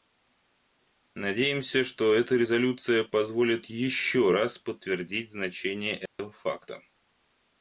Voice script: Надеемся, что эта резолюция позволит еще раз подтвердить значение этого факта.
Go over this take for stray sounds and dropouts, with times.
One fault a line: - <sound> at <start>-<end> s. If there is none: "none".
- dropout at 6.1-6.2 s